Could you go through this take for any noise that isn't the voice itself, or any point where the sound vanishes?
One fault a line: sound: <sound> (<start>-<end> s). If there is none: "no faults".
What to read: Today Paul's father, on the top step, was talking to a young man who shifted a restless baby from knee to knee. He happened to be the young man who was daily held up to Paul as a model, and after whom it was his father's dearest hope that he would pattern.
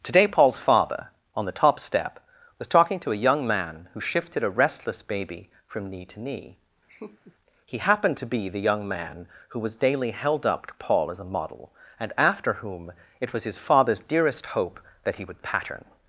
sound: laugh (6.9-7.4 s)